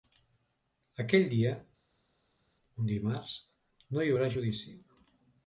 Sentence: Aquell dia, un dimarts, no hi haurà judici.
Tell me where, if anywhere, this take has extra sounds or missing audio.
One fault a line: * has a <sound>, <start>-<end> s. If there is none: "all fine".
all fine